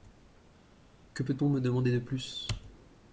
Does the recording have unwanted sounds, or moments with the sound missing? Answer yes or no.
no